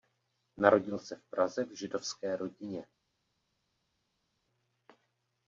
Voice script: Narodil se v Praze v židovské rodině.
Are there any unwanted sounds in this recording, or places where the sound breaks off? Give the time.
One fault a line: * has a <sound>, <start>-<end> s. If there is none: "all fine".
all fine